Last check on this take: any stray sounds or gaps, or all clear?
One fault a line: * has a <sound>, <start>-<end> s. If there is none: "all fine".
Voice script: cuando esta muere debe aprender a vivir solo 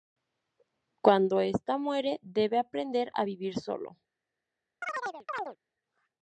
* has a chirp, 4.8-5.6 s